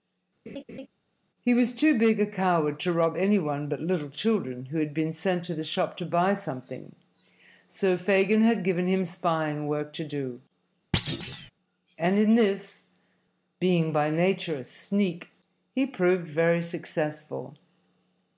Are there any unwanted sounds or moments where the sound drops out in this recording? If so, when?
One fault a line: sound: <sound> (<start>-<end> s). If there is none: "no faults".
sound: laugh (0.5-0.9 s)
sound: thud (10.9-11.5 s)